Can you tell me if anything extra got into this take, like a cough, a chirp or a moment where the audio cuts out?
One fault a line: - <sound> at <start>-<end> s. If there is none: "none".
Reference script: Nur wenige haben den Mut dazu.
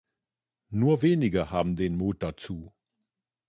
none